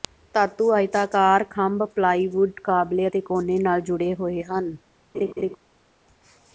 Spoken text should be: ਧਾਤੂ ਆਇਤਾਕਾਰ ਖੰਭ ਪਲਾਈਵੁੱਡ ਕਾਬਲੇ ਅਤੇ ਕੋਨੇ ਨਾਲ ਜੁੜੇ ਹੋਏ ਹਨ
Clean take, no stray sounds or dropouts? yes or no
no